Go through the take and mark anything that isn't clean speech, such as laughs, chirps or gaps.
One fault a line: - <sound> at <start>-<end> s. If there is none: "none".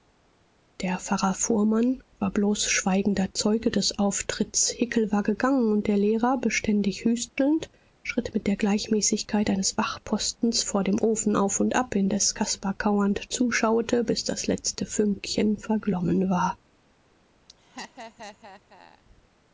- laugh at 17.5-19.0 s